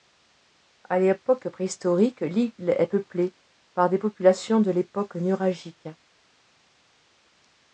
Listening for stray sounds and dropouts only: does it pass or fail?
pass